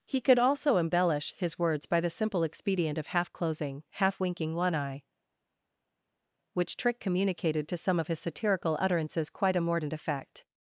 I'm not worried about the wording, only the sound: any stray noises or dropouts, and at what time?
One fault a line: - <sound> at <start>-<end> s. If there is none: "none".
none